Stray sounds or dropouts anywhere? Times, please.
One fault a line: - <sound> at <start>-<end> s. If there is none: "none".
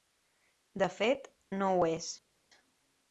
none